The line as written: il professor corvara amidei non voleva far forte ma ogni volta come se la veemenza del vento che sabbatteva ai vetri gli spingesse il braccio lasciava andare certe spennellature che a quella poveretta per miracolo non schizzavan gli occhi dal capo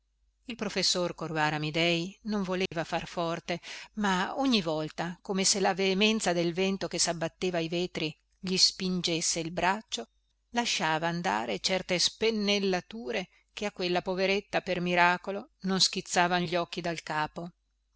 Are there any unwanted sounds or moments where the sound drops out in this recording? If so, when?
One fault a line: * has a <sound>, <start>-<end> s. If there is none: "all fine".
* has a dropout, 2.7-2.7 s